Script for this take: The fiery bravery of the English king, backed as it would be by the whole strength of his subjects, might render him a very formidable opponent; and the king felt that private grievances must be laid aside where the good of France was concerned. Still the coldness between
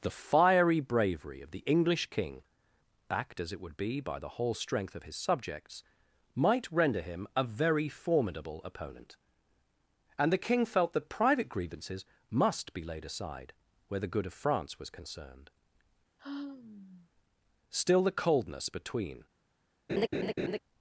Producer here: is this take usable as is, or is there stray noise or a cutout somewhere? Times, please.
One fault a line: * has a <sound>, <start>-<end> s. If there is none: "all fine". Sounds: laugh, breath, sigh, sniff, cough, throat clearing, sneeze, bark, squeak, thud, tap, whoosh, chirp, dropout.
* has a sigh, 16.2-17.1 s
* has a laugh, 19.9-20.6 s